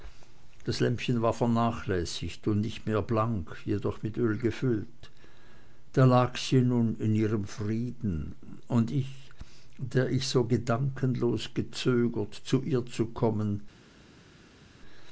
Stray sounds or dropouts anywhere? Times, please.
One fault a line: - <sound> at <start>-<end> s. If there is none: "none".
none